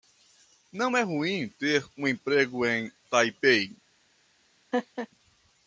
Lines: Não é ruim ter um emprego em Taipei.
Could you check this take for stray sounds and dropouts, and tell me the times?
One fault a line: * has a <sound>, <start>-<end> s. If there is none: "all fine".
* has a laugh, 4.7-5.1 s